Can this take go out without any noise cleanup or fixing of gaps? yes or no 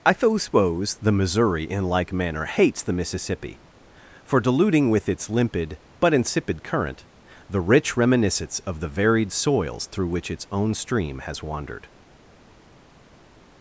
yes